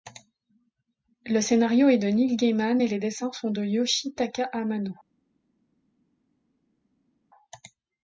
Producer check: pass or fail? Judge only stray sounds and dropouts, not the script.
pass